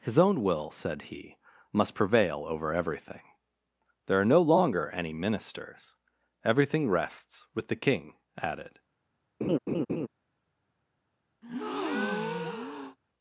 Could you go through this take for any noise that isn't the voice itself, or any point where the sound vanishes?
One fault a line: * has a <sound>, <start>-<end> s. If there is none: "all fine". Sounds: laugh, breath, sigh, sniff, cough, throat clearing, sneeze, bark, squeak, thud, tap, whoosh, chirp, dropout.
* has a laugh, 9.4-10.1 s
* has a breath, 11.4-13.0 s